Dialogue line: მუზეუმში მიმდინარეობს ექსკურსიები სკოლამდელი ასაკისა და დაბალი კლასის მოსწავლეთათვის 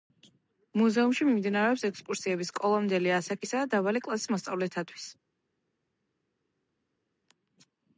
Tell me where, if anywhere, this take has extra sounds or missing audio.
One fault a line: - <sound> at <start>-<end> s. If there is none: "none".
none